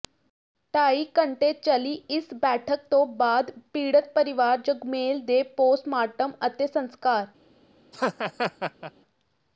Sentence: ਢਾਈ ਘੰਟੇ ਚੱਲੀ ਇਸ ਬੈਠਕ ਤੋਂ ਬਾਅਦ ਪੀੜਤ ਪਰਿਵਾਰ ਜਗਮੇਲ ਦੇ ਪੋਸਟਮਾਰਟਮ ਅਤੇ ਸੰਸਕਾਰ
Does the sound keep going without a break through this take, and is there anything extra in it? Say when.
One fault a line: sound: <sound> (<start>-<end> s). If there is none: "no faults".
sound: laugh (7.9-8.9 s)